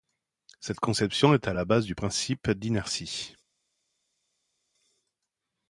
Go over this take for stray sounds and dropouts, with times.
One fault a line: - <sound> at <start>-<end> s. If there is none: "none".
none